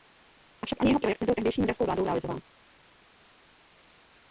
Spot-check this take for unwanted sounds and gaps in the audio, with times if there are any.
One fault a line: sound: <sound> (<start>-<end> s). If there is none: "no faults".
no faults